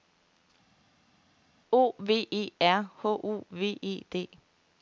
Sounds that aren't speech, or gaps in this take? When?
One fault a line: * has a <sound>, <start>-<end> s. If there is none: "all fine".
all fine